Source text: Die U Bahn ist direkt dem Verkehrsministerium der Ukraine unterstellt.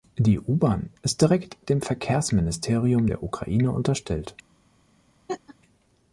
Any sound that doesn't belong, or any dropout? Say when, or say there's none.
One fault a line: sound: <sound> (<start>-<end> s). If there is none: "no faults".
sound: laugh (5.3-5.6 s)